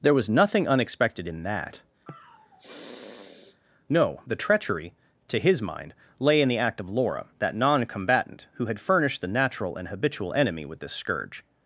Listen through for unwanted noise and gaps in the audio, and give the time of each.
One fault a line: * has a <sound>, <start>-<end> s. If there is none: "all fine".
* has a sniff, 2.1-3.6 s